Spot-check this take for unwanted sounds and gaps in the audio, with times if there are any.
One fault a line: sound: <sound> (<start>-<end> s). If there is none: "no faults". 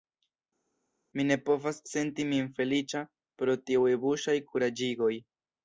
no faults